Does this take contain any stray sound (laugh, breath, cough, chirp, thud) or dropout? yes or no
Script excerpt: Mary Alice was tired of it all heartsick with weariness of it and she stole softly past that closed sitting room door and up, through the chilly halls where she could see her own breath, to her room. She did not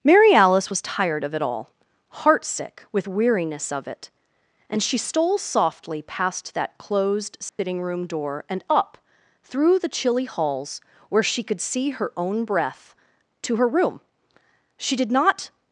yes